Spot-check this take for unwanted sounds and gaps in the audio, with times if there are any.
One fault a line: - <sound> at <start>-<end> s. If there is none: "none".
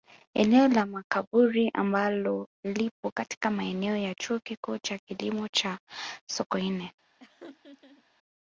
- laugh at 7.2-8.0 s